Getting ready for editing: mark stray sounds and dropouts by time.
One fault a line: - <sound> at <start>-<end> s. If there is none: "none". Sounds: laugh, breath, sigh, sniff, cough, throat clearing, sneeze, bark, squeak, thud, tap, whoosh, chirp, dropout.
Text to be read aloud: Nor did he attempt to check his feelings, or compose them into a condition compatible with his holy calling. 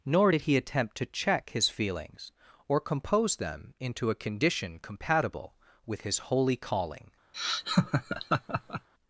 - laugh at 7.3-8.9 s